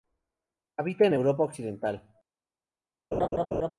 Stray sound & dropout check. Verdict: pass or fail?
fail